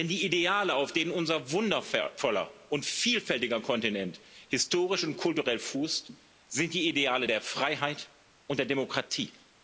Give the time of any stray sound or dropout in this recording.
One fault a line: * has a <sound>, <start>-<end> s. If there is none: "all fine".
all fine